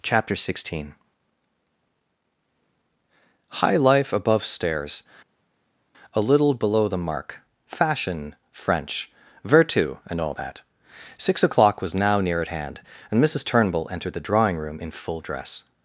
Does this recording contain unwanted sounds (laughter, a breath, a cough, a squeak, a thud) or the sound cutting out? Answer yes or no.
no